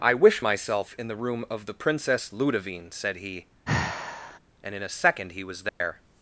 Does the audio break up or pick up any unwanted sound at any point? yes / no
yes